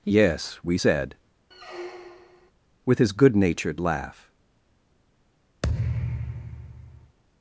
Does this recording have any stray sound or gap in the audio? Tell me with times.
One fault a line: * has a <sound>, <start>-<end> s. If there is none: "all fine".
* has a squeak, 1.5-2.5 s
* has a thud, 5.6-7.2 s